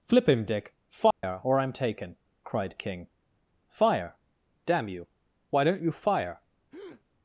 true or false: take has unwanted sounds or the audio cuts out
true